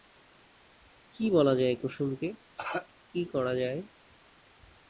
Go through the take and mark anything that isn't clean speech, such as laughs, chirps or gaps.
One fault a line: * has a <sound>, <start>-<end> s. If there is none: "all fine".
* has a cough, 2.6-2.9 s